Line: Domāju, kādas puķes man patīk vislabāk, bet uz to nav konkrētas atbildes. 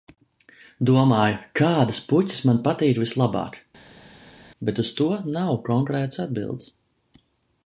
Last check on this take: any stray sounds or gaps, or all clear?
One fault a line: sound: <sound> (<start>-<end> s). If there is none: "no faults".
no faults